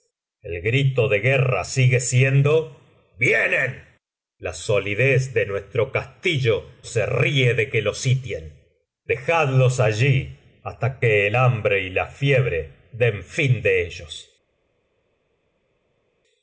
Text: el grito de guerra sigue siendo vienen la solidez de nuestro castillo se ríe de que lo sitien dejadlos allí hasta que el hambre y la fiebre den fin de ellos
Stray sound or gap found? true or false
false